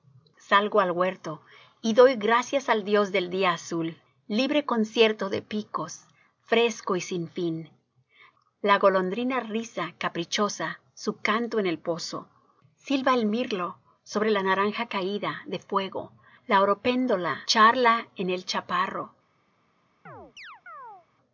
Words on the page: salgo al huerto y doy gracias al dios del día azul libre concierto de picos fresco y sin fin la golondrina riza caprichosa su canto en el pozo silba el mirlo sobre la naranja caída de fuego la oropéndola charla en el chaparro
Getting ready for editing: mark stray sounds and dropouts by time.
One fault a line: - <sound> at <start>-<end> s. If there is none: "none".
- chirp at 20.1-21.1 s